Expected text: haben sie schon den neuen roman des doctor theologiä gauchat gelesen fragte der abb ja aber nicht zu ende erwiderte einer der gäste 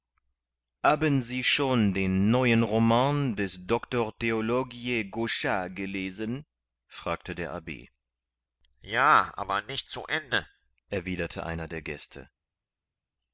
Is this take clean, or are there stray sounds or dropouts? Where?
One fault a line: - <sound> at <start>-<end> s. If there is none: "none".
none